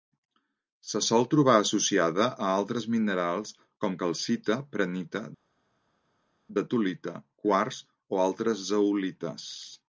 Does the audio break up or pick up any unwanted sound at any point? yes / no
no